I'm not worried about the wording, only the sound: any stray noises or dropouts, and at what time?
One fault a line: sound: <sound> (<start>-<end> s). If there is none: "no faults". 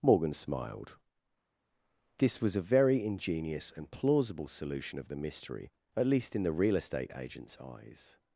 no faults